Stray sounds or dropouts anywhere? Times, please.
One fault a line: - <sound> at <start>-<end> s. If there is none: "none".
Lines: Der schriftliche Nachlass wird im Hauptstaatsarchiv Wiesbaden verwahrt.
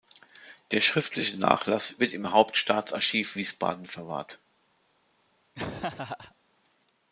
- laugh at 5.5-6.3 s